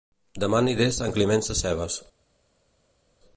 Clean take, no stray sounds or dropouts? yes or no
yes